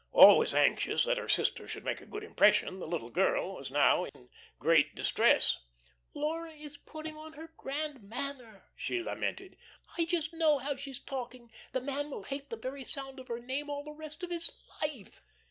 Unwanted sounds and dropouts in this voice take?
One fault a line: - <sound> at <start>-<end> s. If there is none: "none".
- dropout at 4.1-4.1 s